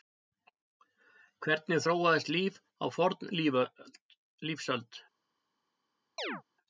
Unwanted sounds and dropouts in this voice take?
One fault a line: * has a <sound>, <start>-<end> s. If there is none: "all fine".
* has a chirp, 6.2-6.4 s